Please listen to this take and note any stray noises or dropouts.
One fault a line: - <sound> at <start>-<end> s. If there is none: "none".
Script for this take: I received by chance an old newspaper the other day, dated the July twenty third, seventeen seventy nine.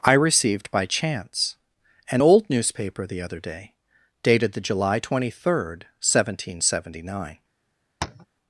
- tap at 8.0-8.3 s